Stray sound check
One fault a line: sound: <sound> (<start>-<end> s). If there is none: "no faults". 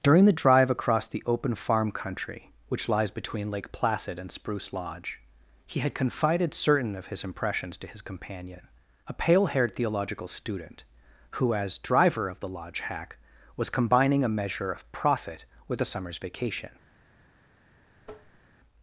sound: tap (18.0-18.4 s)